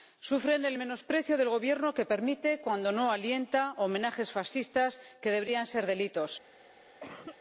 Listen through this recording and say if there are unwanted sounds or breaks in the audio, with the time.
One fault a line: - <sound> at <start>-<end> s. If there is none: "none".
- cough at 7.0-7.4 s